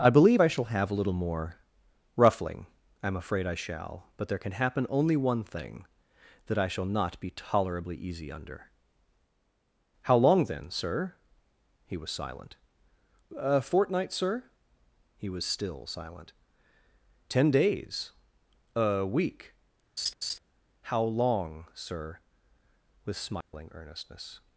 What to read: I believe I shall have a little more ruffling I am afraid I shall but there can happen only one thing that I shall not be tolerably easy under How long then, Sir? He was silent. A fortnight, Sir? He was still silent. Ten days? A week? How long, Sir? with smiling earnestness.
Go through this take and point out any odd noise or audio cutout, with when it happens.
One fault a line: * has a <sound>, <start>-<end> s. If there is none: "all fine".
* has a laugh, 20.0-20.4 s
* has a dropout, 23.4-23.5 s